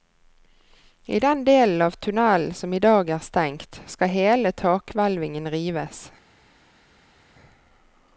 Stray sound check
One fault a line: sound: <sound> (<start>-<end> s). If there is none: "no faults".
no faults